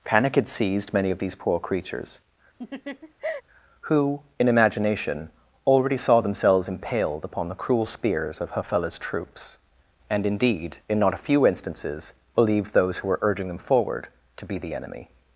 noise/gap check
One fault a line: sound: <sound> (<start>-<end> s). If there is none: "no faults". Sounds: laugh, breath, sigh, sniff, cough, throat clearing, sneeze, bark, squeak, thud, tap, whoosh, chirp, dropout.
sound: laugh (2.6-3.4 s)